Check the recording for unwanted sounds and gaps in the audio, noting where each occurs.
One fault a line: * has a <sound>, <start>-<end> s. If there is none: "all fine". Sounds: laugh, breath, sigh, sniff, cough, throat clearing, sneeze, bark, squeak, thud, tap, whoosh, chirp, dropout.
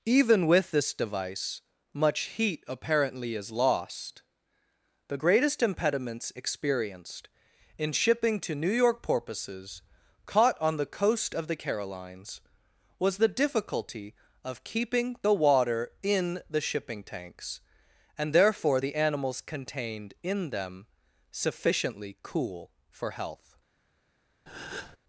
* has a breath, 24.5-25.0 s